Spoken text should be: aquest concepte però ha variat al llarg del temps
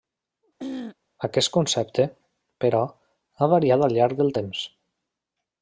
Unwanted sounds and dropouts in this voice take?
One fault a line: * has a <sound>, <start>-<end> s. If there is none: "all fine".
* has a throat clearing, 0.6-1.0 s